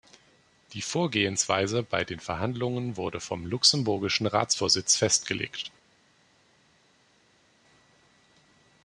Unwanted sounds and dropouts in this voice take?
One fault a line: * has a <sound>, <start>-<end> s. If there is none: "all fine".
all fine